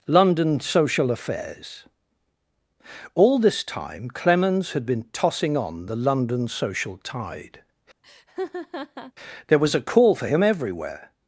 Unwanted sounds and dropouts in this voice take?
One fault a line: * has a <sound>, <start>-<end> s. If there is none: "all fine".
* has a laugh, 8.0-9.1 s